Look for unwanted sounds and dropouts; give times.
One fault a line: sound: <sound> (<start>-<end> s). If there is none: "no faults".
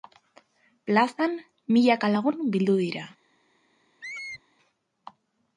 sound: squeak (4.0-4.4 s)